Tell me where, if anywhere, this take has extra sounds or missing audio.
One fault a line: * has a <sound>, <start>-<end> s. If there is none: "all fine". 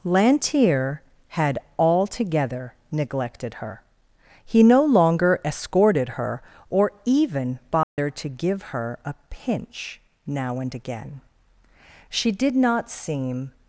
* has a dropout, 7.8-8.0 s